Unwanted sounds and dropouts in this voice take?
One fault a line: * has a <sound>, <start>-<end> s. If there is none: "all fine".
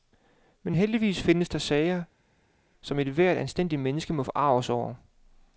all fine